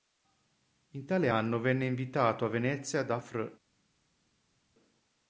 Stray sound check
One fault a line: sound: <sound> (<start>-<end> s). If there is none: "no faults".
no faults